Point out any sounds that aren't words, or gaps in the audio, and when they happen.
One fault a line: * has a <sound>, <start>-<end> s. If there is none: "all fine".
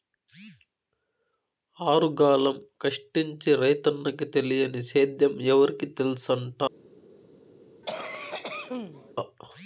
* has a cough, 7.8-9.1 s